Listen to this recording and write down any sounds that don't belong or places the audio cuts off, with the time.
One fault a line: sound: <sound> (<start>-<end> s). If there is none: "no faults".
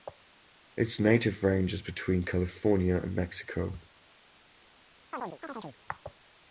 sound: chirp (5.1-5.8 s)